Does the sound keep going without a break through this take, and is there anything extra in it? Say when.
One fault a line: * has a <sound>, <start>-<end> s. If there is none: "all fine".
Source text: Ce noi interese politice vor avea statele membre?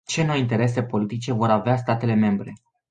all fine